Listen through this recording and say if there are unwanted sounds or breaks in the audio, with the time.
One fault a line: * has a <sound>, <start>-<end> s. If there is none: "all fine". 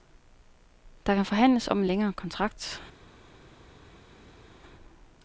all fine